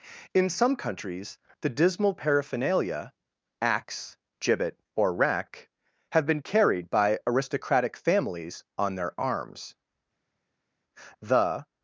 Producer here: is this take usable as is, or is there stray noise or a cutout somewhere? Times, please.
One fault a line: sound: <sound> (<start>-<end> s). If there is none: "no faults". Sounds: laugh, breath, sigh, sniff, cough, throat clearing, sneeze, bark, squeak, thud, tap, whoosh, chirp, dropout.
no faults